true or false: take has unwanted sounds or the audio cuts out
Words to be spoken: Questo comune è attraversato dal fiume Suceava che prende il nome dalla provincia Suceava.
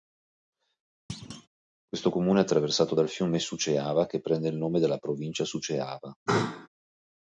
true